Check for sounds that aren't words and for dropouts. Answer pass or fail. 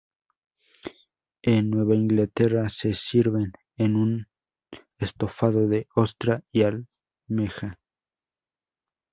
pass